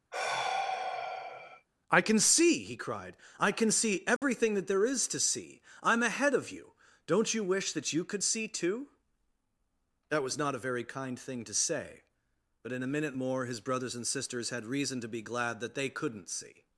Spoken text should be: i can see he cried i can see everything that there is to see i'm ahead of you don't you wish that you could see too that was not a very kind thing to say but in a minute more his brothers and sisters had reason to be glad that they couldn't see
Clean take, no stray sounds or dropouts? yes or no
no